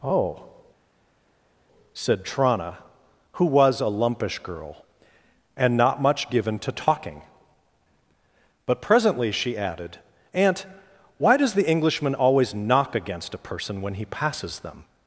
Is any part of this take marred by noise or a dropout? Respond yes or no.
no